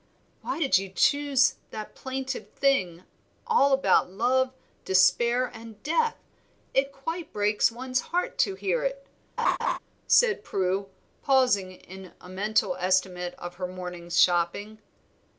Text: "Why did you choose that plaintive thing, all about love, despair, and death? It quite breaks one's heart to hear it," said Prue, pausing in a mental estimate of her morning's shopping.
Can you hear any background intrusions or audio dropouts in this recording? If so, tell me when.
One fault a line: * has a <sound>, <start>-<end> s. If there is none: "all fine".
* has a laugh, 9.4-9.8 s